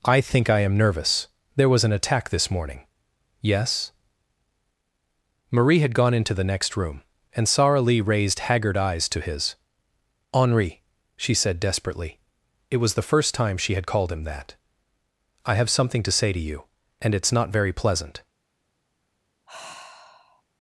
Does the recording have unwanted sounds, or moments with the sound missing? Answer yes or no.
yes